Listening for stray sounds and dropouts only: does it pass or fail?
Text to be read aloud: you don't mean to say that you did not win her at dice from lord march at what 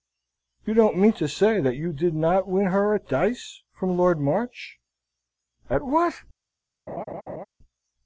fail